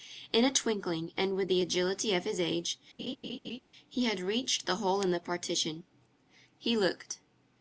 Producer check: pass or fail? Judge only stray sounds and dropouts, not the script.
fail